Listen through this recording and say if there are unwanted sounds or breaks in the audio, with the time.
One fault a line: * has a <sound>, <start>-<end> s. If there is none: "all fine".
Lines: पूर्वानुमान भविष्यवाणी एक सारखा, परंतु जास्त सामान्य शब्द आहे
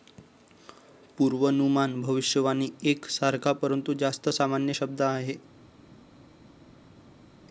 all fine